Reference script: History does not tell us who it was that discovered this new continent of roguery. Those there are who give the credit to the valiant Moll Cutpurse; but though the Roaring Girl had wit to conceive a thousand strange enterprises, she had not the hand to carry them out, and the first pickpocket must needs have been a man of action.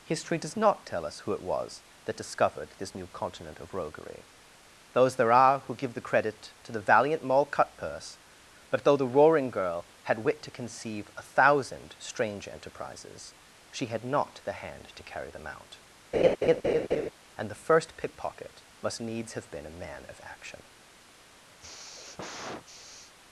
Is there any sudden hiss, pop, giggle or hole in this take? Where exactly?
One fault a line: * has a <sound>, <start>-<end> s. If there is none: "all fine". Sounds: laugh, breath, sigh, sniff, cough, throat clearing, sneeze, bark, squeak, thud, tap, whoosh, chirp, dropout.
* has a laugh, 16.1-17.1 s
* has a sigh, 21.6-23.1 s